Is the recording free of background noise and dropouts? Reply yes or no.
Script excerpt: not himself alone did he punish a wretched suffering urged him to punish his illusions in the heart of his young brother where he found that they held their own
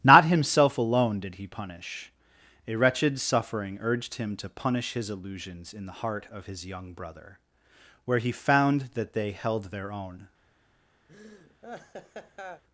no